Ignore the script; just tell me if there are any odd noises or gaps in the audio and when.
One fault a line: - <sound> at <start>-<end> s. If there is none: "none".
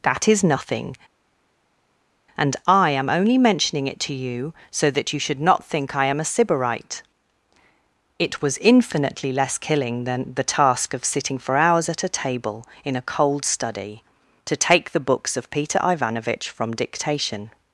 none